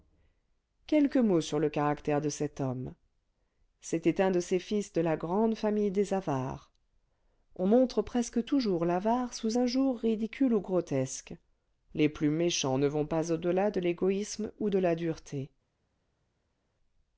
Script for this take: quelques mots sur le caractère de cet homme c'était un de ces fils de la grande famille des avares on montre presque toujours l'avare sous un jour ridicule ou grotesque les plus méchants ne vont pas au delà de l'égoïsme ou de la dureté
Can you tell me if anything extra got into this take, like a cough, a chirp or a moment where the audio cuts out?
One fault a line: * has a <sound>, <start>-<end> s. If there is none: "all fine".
all fine